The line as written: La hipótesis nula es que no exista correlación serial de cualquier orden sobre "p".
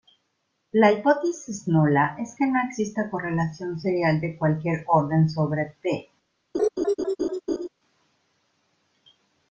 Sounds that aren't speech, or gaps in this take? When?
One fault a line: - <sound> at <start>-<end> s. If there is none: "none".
- laugh at 6.5-7.7 s